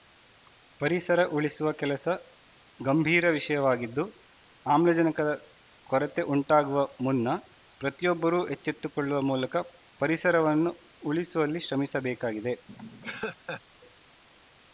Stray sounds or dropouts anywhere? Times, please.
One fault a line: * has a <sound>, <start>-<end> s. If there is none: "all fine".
* has a laugh, 12.7-13.6 s